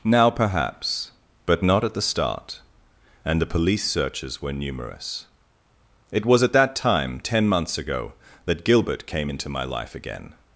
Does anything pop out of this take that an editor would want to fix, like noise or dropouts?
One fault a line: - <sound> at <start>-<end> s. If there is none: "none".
none